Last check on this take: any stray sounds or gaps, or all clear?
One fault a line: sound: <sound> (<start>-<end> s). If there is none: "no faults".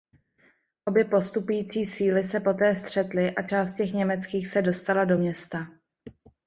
no faults